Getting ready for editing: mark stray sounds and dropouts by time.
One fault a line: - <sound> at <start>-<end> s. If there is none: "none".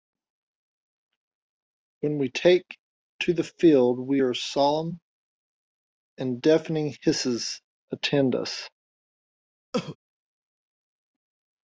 - cough at 9.7-10.0 s